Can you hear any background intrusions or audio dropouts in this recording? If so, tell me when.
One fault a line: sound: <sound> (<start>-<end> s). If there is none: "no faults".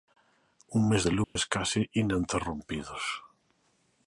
sound: dropout (1.2-1.4 s)